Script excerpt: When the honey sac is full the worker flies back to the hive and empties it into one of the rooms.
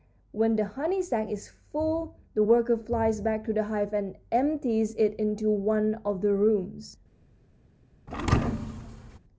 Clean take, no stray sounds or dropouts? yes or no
no